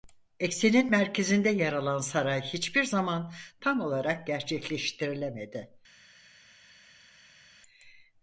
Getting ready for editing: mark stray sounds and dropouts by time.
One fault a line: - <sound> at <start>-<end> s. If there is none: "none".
none